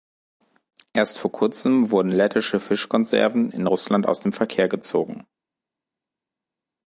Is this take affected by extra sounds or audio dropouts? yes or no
no